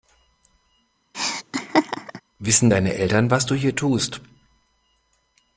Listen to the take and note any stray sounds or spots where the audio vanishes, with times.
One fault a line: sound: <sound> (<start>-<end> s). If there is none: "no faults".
sound: laugh (1.1-2.2 s)